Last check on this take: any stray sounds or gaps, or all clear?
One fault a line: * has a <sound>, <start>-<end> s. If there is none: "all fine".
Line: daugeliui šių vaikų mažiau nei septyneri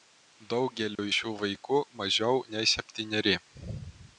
* has a dropout, 0.9-1.0 s